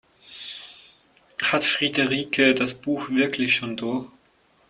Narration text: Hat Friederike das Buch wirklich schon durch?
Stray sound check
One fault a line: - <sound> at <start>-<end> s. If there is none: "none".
none